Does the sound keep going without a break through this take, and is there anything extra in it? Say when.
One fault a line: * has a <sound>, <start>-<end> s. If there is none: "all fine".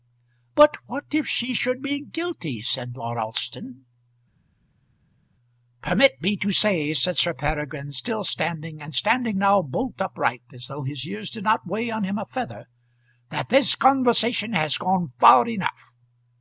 all fine